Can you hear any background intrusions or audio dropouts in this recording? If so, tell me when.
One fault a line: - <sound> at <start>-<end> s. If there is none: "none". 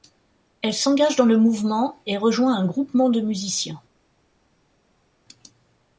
none